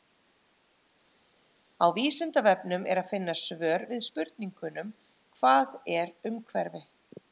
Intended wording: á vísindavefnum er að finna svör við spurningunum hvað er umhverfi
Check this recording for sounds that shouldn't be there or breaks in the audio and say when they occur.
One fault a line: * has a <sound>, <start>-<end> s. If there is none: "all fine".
all fine